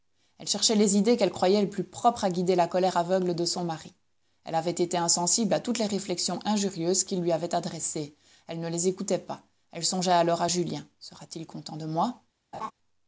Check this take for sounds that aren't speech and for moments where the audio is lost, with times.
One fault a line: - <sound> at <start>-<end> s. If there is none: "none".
- laugh at 12.5-12.7 s